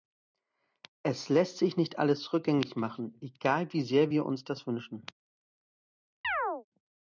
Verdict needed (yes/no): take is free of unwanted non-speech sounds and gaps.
no